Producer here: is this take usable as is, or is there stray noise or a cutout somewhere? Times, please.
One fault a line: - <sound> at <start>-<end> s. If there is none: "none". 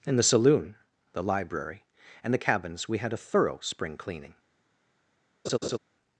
- laugh at 5.4-5.8 s